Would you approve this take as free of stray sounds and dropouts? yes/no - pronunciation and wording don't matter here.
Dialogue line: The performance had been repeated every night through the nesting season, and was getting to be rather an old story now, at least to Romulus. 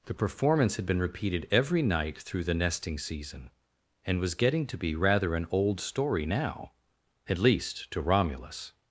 yes